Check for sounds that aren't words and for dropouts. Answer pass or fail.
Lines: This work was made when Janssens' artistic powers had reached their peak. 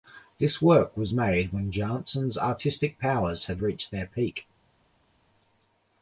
pass